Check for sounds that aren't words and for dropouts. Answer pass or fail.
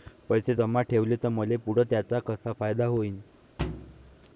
fail